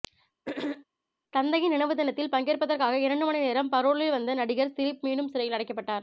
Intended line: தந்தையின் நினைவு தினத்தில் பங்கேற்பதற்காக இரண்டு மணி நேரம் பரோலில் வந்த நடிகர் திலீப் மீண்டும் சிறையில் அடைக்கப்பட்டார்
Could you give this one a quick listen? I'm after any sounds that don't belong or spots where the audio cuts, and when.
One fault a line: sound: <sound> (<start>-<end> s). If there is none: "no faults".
sound: throat clearing (0.5-0.9 s)